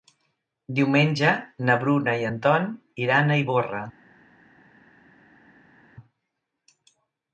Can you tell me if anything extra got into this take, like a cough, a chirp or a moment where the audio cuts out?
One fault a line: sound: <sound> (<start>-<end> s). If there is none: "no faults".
no faults